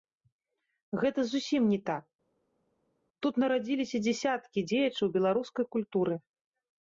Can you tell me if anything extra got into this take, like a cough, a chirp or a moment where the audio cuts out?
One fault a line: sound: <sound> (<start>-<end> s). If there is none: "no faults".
no faults